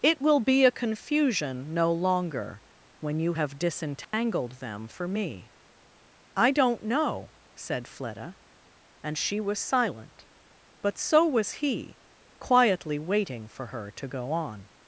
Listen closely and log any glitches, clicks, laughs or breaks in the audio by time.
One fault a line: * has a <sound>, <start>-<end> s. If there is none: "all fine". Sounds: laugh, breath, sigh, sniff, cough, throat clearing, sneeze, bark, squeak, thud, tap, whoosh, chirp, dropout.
* has a dropout, 4.0-4.1 s